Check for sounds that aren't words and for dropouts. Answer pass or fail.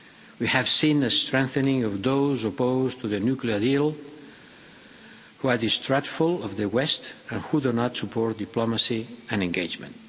pass